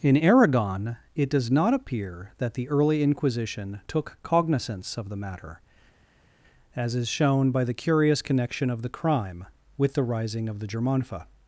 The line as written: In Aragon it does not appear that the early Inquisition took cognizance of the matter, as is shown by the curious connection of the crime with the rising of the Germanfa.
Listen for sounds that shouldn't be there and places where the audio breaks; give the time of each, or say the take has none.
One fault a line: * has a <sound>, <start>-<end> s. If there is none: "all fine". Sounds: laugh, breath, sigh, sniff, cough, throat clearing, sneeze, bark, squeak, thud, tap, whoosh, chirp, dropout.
all fine